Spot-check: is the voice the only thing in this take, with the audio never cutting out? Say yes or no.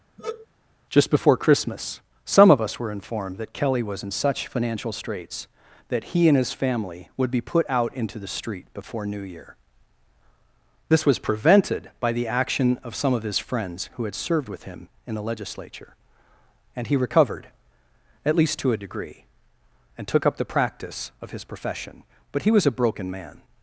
no